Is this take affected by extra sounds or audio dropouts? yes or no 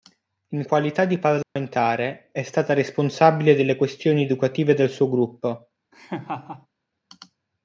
yes